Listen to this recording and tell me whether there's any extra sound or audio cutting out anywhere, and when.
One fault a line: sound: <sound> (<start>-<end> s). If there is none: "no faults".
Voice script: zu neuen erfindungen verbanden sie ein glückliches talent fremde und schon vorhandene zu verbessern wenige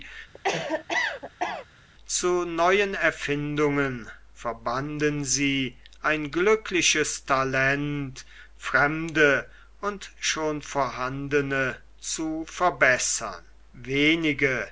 sound: cough (0.3-1.7 s)